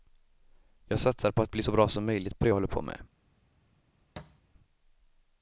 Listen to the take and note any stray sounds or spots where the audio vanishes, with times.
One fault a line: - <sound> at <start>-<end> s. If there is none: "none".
- thud at 4.2-4.4 s